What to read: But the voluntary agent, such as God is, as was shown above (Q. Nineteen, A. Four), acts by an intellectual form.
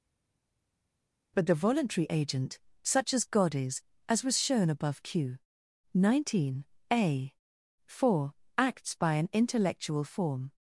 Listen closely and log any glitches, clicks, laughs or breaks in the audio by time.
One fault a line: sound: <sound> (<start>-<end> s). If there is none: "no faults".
no faults